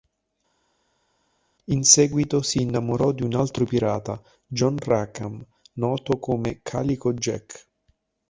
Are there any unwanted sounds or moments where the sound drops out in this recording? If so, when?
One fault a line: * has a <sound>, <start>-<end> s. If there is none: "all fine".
all fine